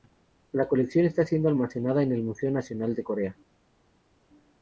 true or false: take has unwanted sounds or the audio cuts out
false